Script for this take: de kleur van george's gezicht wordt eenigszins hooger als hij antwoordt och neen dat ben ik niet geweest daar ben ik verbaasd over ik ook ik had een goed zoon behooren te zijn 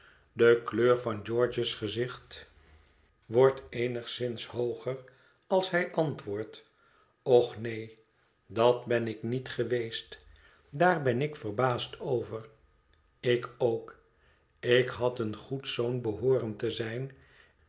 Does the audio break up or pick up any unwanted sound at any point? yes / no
no